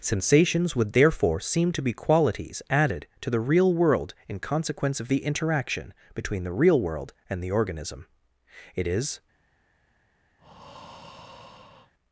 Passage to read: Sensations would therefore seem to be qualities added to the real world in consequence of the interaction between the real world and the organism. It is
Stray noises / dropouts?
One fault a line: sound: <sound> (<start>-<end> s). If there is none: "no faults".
sound: breath (10.4-11.9 s)